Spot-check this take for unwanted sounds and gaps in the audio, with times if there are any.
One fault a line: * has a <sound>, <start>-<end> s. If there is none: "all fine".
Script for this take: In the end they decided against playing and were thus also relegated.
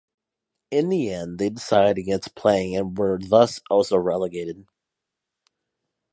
all fine